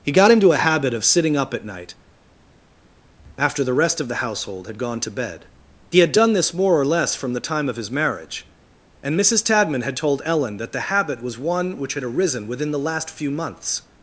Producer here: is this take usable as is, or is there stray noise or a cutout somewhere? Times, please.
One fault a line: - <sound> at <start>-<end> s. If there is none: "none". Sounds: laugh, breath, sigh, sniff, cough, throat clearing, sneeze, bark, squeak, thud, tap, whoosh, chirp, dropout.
none